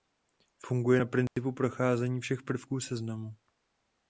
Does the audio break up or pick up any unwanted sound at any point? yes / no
yes